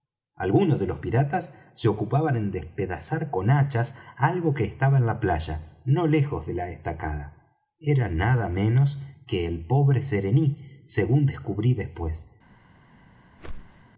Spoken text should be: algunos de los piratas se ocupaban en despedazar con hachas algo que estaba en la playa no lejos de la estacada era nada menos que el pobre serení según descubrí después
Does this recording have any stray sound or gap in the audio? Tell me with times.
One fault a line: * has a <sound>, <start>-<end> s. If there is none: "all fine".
* has a whoosh, 13.4-13.8 s